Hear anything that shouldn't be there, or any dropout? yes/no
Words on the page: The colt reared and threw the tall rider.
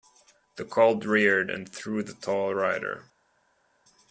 no